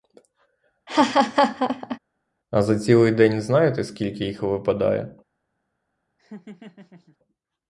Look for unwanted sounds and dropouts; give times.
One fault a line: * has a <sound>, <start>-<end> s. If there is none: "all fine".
* has a laugh, 0.9-2.0 s
* has a laugh, 6.2-7.2 s